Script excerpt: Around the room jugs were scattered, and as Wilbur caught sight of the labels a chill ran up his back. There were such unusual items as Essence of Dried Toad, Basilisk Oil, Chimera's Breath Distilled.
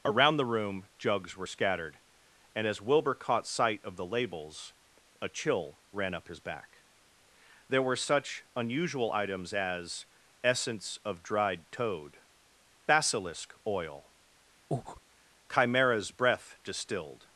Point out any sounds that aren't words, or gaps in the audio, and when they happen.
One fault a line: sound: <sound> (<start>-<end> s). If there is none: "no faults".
sound: breath (14.7-15.0 s)